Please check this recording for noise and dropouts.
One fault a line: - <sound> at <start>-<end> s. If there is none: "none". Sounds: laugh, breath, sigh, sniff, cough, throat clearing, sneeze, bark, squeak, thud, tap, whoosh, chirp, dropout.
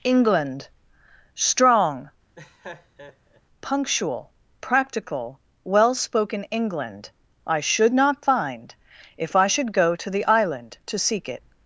- laugh at 2.3-3.4 s